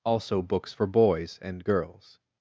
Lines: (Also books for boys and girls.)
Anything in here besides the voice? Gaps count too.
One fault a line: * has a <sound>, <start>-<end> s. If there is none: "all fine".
all fine